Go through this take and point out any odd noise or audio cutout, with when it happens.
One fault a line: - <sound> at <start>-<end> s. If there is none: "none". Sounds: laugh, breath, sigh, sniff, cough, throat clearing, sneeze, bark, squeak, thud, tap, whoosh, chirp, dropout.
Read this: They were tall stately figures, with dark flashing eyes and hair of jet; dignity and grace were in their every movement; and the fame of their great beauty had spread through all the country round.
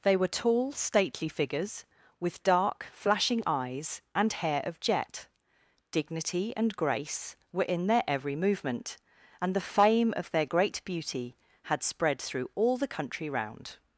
none